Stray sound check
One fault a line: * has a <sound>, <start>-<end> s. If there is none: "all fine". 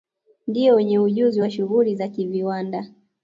all fine